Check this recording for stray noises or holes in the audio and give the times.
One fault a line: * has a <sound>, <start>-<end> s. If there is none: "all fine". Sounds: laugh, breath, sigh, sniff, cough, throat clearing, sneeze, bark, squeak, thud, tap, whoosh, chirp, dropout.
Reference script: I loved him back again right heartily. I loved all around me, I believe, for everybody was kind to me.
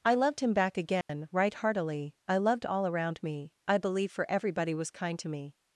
* has a dropout, 1.0-1.1 s